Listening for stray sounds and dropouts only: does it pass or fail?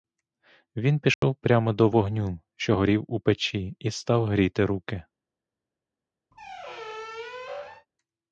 fail